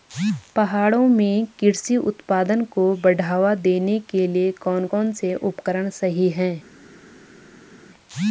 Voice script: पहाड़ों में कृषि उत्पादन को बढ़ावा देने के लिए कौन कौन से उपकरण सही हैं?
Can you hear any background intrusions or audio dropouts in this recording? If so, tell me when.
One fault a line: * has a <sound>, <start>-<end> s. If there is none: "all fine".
all fine